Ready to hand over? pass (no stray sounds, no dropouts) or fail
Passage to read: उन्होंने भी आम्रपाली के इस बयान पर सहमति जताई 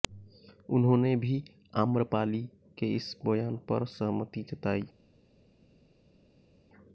pass